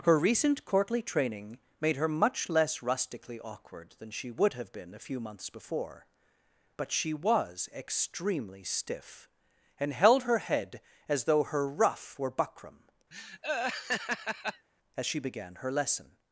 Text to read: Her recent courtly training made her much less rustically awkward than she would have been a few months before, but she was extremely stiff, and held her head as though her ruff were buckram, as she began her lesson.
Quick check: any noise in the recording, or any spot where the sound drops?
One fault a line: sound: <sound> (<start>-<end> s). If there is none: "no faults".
sound: laugh (13.1-14.7 s)